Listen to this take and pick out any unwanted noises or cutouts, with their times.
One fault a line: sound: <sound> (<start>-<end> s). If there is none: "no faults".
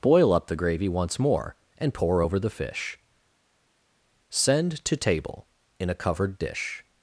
no faults